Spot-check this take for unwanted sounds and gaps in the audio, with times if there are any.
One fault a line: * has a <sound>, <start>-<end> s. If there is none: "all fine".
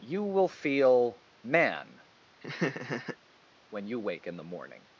* has a laugh, 2.4-3.2 s